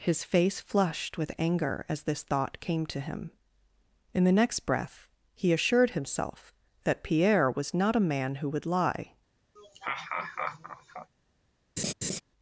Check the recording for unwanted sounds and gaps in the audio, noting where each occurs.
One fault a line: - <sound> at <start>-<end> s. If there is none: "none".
- laugh at 9.6-11.1 s
- laugh at 11.8-12.2 s